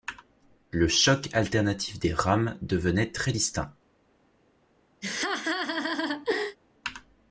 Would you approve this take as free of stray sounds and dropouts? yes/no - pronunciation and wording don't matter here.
no